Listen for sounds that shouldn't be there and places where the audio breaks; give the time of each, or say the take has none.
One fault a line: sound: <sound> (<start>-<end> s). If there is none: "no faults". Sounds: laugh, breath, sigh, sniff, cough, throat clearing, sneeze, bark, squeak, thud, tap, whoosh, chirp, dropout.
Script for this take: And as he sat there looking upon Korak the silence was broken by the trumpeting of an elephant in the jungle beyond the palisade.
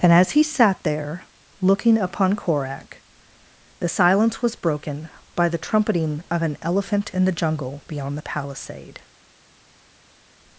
no faults